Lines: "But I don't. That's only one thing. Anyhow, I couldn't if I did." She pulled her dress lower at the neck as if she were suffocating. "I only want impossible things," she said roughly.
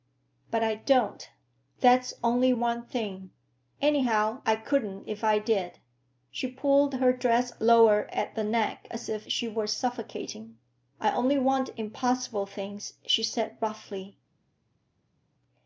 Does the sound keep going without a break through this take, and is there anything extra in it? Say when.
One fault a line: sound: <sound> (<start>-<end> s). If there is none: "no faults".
no faults